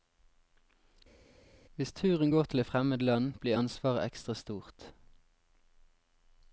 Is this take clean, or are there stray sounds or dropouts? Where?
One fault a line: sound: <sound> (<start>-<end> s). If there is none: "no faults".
no faults